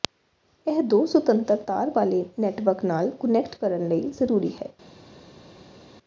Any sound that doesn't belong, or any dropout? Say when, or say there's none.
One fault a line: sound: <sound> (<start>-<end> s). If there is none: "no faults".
no faults